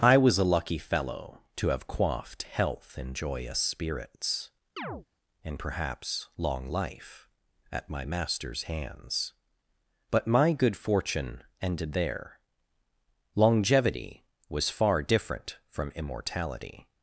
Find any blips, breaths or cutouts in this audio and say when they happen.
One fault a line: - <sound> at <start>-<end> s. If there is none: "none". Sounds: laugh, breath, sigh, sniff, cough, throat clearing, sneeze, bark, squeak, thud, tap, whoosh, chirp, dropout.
- chirp at 4.8-5.1 s